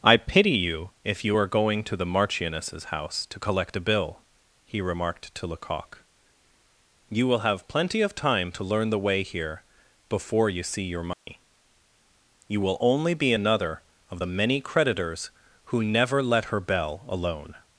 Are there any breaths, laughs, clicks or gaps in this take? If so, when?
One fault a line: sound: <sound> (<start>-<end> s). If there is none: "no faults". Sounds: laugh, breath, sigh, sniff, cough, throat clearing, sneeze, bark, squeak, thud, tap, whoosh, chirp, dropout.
sound: dropout (11.1-11.3 s)